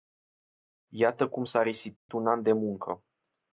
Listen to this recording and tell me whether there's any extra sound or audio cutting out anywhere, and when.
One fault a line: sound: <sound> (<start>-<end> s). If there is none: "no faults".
sound: dropout (2.0-2.1 s)